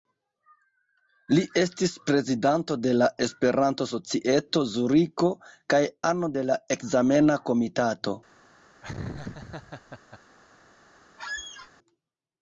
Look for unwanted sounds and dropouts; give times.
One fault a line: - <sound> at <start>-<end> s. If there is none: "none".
- laugh at 8.8-10.2 s
- squeak at 11.2-11.7 s